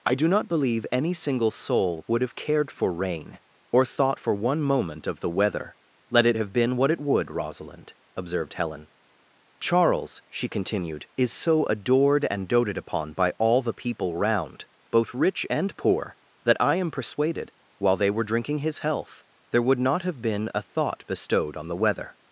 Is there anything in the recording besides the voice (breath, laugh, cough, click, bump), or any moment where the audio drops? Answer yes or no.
no